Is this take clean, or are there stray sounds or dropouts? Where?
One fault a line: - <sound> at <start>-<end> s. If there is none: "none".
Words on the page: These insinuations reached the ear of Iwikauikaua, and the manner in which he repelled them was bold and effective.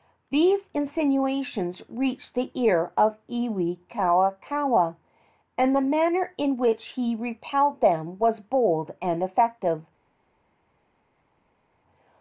none